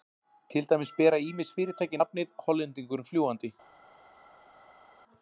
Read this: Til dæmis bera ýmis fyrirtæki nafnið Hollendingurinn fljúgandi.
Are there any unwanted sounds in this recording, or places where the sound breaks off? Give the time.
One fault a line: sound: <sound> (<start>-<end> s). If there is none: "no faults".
no faults